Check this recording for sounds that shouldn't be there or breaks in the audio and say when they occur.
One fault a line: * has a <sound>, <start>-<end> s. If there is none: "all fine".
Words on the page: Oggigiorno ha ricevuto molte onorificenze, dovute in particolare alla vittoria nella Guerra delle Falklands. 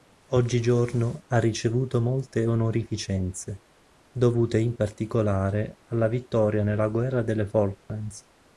* has a dropout, 7.8-7.9 s